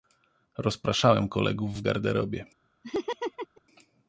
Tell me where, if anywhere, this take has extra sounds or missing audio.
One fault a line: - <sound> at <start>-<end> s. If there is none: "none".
- laugh at 2.8-3.6 s